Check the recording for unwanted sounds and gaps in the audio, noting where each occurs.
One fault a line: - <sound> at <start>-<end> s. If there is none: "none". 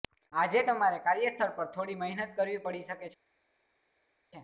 none